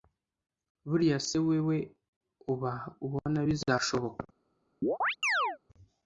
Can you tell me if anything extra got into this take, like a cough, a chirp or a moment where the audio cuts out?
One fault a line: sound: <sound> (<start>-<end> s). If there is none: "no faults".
sound: chirp (4.8-5.6 s)